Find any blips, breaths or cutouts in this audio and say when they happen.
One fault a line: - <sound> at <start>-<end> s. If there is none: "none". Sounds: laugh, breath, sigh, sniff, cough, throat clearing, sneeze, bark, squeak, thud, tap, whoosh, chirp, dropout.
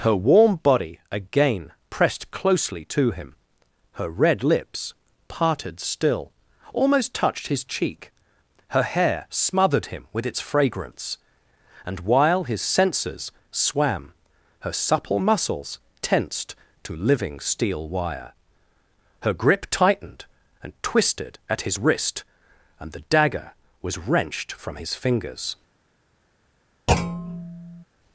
- thud at 26.9-27.8 s